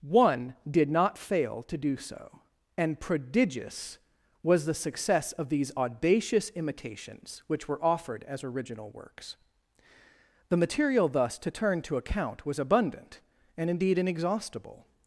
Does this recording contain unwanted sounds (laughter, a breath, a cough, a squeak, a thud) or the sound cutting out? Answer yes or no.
no